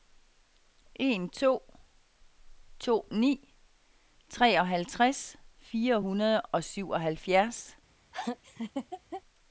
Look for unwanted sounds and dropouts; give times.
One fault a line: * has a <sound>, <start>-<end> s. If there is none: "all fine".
* has a laugh, 8.1-9.2 s